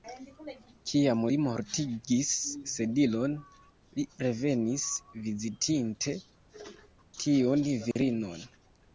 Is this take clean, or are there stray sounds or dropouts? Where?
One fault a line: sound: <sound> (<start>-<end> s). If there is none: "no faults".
sound: dropout (7.9-8.0 s)